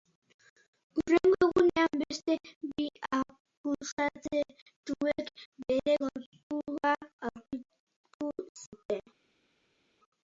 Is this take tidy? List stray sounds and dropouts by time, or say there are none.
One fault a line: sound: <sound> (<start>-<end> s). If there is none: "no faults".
no faults